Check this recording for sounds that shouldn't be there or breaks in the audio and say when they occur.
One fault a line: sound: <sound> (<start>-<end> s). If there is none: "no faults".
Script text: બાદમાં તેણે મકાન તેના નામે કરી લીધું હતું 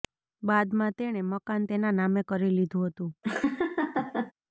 sound: laugh (3.2-4.3 s)